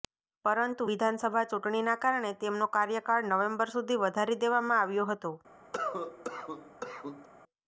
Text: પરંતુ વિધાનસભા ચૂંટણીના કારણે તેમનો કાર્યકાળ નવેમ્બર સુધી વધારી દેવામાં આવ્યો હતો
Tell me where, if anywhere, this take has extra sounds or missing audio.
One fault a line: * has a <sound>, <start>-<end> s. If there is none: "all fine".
* has a cough, 5.7-7.3 s